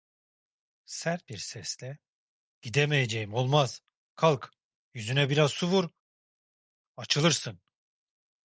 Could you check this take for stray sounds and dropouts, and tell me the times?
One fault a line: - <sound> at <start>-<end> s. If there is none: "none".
none